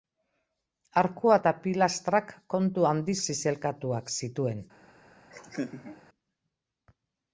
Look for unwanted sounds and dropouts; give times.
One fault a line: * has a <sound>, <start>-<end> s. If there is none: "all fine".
* has a laugh, 5.3-6.0 s